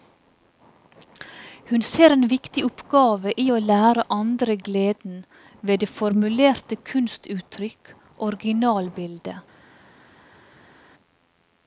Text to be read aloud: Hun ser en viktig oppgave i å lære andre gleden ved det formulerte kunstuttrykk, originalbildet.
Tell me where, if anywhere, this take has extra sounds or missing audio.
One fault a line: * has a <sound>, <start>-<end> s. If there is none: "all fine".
all fine